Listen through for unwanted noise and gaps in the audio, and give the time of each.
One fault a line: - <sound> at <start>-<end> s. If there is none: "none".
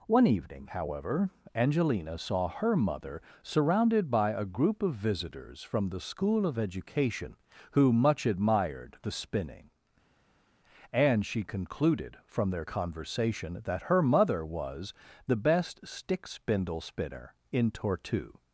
none